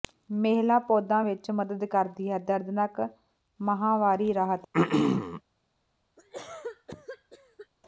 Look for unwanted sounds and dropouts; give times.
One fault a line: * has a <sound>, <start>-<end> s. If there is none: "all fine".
* has a throat clearing, 4.7-5.4 s
* has a cough, 6.2-7.7 s